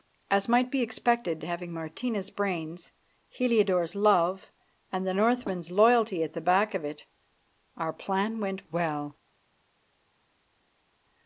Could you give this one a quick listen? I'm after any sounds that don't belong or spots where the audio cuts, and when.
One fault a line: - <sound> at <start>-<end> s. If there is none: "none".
none